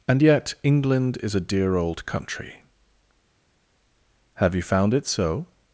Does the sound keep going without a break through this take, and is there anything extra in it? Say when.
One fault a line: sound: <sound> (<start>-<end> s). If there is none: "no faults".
no faults